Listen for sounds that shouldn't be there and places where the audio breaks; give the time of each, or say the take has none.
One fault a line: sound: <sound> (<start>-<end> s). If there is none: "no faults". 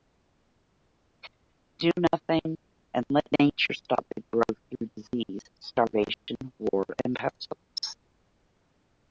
sound: dropout (6.1-6.3 s)